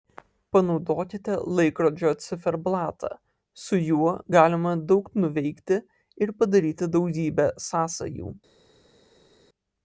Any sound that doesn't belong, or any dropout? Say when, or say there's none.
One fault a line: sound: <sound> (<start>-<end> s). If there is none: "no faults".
no faults